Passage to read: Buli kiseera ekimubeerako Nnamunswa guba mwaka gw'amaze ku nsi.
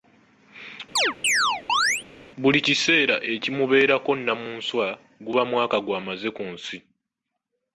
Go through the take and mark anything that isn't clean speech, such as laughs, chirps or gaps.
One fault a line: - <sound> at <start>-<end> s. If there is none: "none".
- chirp at 1.0-2.0 s